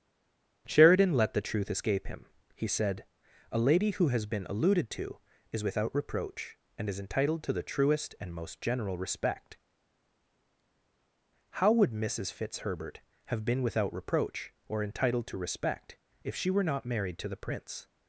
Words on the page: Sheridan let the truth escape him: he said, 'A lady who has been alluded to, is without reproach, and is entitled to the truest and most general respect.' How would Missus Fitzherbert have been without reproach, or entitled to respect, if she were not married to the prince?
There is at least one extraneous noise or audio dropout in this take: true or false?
false